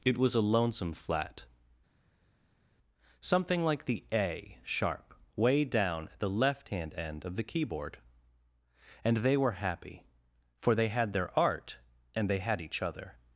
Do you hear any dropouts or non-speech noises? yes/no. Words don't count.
no